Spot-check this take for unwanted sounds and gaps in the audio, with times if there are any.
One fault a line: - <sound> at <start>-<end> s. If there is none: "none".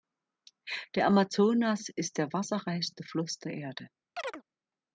- chirp at 4.2-4.4 s